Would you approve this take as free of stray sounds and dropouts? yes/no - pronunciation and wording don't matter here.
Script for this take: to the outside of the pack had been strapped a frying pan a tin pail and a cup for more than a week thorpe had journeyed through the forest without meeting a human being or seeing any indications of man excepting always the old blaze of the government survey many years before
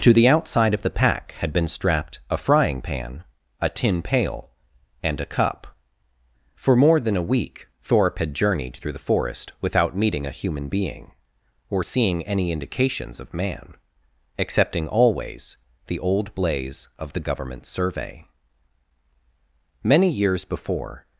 yes